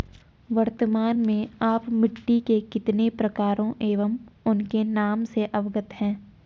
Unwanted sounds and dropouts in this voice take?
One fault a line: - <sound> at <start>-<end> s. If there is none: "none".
none